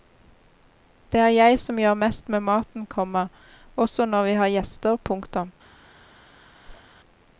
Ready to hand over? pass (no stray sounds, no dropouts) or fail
fail